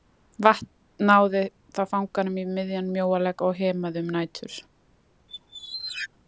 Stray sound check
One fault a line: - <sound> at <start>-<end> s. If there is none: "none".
- squeak at 5.3-6.1 s